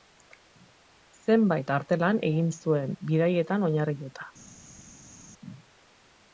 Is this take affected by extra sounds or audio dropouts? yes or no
no